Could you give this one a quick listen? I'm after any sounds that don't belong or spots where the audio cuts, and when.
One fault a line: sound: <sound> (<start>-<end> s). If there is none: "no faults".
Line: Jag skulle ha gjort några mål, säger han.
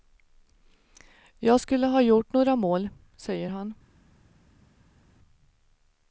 no faults